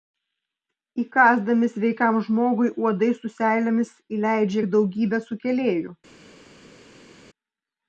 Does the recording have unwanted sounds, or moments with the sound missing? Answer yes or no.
no